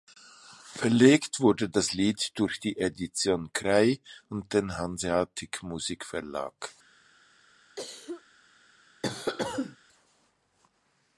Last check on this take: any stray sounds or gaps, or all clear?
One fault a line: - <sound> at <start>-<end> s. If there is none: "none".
- cough at 7.8-8.2 s
- cough at 9.0-9.8 s